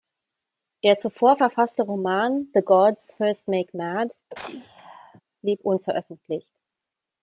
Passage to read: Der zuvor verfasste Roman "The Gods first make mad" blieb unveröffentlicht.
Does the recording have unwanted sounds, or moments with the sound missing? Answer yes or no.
yes